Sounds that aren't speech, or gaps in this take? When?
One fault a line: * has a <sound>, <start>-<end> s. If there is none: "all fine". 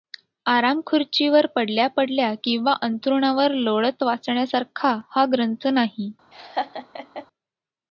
* has a laugh, 6.3-7.3 s